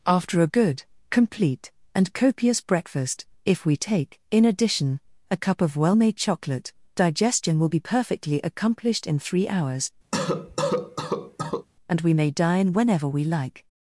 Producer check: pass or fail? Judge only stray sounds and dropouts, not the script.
fail